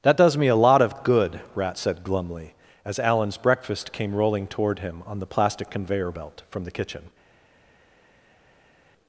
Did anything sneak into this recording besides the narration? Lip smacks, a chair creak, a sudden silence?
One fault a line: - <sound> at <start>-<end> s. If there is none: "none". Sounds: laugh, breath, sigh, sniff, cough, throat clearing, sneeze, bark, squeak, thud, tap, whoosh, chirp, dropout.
none